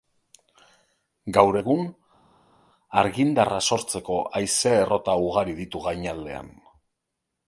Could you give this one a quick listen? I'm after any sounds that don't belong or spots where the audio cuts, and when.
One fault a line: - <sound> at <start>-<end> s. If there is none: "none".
none